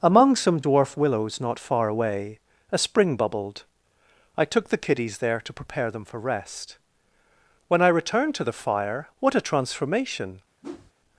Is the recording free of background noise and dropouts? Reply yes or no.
no